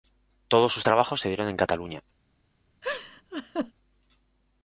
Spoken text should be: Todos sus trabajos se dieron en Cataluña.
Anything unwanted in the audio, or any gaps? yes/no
yes